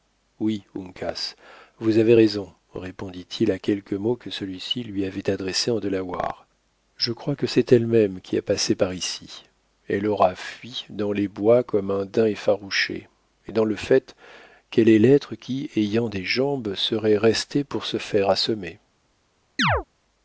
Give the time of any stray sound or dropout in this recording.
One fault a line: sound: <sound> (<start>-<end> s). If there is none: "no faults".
sound: chirp (19.6-19.8 s)